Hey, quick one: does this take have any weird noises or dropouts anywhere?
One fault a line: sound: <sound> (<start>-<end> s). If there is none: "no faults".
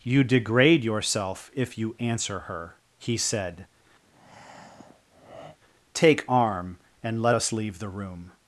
sound: breath (4.0-5.6 s)